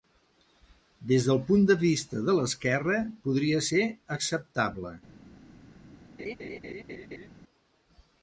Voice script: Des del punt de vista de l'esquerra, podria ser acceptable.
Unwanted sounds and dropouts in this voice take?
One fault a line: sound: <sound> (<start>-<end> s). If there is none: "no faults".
sound: laugh (6.2-7.3 s)